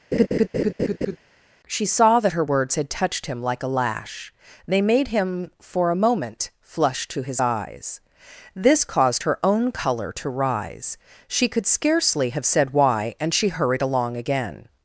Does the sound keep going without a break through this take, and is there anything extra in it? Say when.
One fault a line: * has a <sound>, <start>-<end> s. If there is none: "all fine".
* has a laugh, 0.1-1.2 s